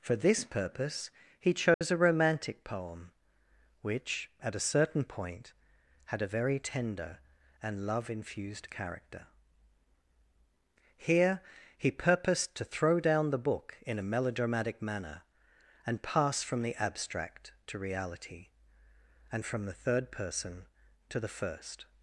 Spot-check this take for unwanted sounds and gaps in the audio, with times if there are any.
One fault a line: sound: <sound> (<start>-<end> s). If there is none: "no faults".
sound: dropout (1.7-1.8 s)